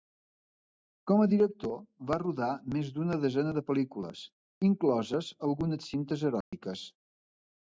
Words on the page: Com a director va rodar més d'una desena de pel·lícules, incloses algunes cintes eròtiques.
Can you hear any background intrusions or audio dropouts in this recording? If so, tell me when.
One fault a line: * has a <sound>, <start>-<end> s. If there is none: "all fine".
* has a dropout, 6.4-6.5 s